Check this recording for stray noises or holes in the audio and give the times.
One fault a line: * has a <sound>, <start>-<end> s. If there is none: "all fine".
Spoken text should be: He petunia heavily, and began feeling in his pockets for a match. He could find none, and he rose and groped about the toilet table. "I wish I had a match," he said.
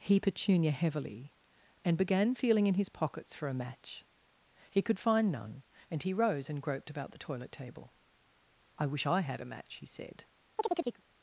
* has a chirp, 10.6-11.0 s